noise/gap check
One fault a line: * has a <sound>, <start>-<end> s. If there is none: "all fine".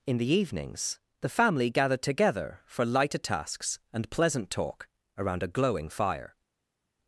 all fine